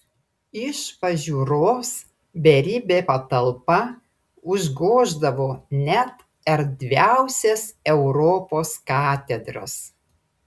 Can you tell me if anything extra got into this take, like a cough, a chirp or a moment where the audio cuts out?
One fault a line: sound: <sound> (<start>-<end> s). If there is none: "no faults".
no faults